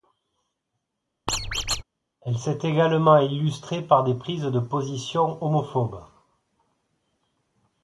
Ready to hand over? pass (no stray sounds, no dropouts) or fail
fail